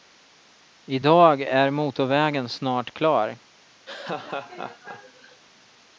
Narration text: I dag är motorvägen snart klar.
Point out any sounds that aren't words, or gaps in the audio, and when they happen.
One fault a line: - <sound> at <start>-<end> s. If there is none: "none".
- laugh at 3.9-5.4 s